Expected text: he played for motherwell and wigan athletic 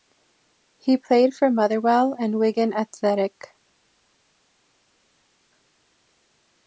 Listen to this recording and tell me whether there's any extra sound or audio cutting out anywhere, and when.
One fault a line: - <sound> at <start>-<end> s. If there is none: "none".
none